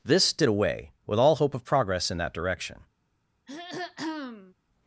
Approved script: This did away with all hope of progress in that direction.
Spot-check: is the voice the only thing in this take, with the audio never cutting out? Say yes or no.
no